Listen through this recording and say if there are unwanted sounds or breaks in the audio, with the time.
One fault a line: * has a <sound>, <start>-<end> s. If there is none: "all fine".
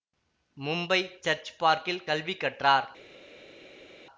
all fine